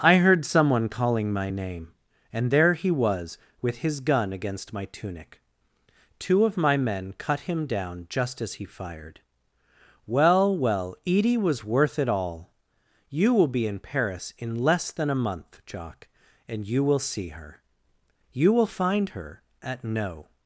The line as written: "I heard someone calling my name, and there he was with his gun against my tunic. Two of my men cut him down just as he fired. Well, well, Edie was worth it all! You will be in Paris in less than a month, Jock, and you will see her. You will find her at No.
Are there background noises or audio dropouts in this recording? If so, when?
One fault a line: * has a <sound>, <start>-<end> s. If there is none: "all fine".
all fine